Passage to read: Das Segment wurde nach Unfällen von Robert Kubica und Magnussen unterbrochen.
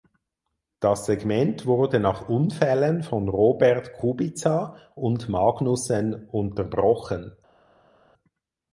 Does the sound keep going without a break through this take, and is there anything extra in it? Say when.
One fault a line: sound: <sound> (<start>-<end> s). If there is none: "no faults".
no faults